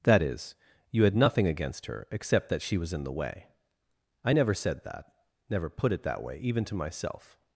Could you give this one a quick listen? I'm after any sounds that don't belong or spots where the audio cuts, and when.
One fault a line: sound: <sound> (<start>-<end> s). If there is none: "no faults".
no faults